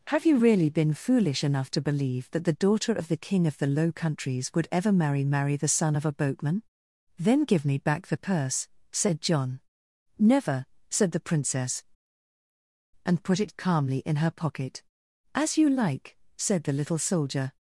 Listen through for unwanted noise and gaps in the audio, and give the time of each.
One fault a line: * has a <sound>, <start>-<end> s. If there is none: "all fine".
all fine